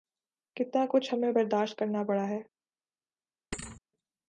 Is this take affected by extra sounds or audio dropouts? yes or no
yes